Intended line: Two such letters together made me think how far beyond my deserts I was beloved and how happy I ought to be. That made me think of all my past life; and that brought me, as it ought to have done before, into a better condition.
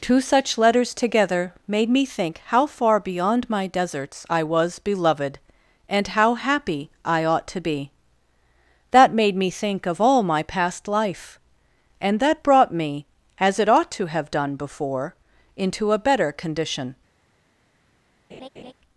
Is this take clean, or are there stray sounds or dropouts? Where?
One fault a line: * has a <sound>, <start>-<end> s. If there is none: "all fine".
* has a laugh, 18.3-18.7 s